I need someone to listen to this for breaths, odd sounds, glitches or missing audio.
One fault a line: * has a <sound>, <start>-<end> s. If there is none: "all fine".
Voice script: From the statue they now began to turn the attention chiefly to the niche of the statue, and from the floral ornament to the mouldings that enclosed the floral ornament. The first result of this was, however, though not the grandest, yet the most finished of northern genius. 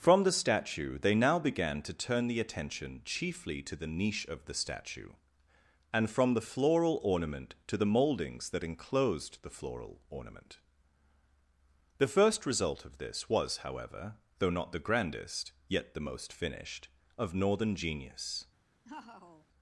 * has a laugh, 18.8-19.5 s